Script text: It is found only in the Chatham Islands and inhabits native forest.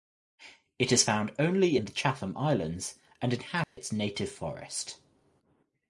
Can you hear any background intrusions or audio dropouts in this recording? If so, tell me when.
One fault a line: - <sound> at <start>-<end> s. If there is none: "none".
- dropout at 3.6-3.8 s